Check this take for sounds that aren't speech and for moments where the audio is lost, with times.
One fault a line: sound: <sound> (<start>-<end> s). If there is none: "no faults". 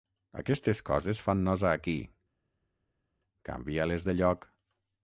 no faults